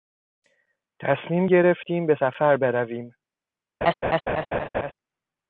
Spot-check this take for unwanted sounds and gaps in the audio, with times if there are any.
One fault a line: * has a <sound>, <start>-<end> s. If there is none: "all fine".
* has a laugh, 3.8-4.9 s